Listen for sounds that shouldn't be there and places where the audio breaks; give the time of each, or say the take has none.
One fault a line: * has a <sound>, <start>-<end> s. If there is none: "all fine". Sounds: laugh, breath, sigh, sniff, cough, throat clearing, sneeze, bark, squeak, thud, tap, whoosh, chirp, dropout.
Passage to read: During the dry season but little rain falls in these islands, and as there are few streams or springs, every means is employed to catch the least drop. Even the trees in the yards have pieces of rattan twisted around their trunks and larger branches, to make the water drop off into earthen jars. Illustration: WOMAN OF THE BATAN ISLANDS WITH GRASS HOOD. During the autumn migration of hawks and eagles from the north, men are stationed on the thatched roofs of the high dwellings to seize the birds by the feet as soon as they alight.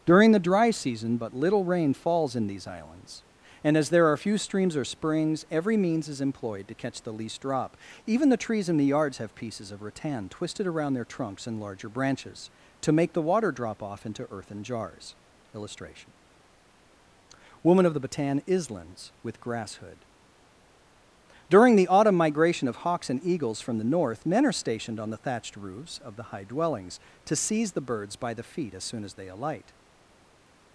all fine